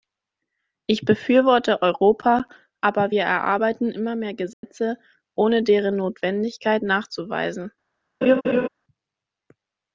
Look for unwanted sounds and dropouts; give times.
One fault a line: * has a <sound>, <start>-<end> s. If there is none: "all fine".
* has a dropout, 4.5-4.6 s
* has a laugh, 8.2-8.7 s